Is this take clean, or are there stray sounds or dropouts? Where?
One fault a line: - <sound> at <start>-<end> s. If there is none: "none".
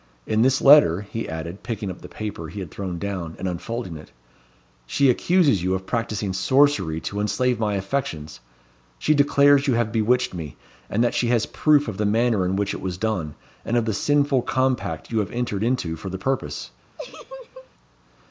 - laugh at 17.0-17.7 s